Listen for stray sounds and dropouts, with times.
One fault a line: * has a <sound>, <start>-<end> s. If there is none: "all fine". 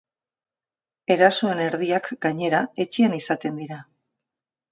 all fine